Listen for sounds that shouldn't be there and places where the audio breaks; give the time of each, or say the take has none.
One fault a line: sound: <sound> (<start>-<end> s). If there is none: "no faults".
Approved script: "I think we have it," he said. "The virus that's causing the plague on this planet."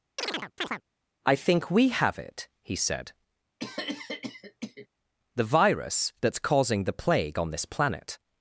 sound: chirp (0.2-0.8 s)
sound: cough (3.6-4.9 s)